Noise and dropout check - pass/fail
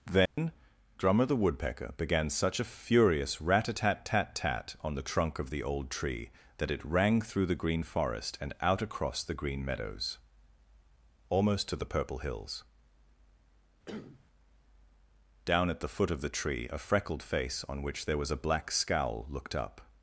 fail